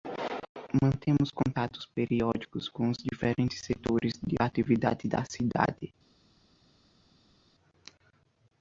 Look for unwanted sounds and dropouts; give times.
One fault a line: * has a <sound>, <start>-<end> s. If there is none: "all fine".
all fine